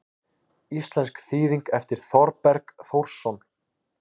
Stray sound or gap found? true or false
false